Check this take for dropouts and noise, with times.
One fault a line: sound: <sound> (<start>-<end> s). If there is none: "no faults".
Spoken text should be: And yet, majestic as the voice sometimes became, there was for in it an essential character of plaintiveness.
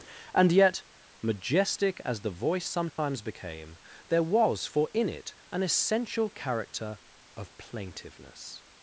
sound: dropout (2.9-3.0 s)